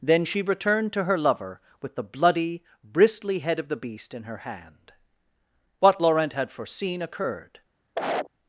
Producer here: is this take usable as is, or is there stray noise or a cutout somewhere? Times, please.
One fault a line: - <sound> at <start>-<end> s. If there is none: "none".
- cough at 8.0-8.3 s